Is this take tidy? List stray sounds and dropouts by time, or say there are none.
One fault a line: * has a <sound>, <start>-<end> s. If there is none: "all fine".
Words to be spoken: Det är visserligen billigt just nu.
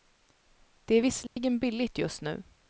* has a dropout, 1.3-1.4 s